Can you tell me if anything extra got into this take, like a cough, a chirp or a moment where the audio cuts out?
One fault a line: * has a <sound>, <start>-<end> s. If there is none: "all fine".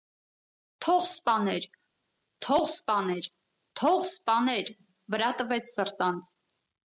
all fine